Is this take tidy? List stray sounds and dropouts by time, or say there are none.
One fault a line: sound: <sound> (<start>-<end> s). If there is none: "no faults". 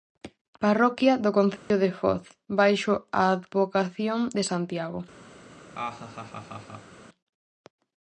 sound: dropout (1.6-1.7 s)
sound: laugh (5.7-7.0 s)